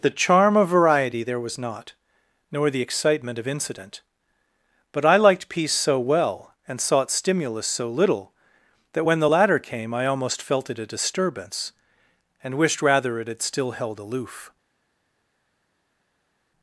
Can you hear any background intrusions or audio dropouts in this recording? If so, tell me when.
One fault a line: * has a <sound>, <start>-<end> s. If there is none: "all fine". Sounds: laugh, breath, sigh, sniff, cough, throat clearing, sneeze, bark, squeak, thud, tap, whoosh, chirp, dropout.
all fine